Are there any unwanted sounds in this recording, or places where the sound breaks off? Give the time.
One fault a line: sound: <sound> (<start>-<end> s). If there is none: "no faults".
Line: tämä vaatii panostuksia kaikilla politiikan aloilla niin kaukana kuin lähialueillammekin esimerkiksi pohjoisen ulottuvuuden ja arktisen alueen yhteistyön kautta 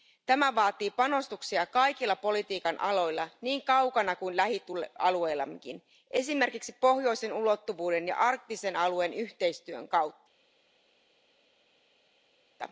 no faults